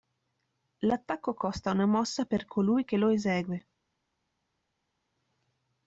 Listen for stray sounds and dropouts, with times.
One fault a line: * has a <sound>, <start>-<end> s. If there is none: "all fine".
all fine